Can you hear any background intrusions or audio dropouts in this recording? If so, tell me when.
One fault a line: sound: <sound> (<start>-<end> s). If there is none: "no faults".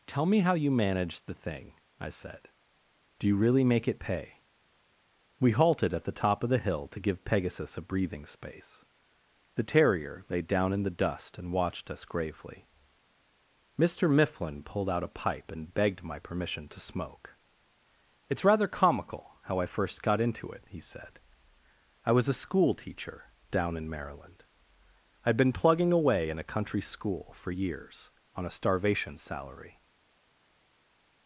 no faults